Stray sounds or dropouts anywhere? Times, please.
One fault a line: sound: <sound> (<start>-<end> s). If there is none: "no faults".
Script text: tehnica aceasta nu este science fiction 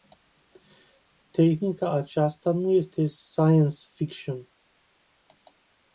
no faults